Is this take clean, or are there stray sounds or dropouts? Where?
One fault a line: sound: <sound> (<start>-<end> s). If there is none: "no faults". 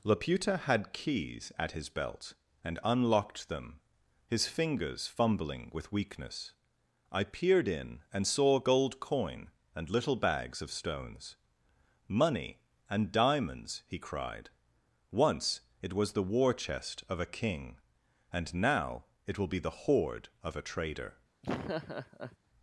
sound: laugh (21.4-22.4 s)